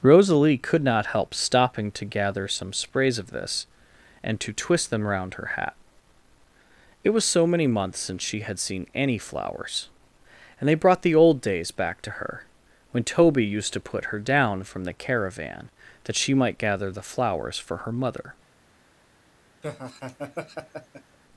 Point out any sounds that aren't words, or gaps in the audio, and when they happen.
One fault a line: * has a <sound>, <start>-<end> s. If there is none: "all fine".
* has a laugh, 19.6-21.2 s